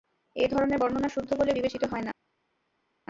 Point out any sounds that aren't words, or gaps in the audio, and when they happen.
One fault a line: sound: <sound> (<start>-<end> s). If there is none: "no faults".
no faults